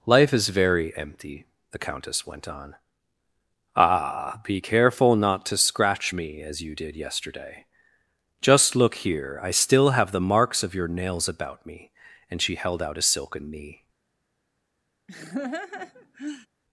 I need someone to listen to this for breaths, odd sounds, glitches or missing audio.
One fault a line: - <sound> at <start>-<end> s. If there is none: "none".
- laugh at 15.1-16.5 s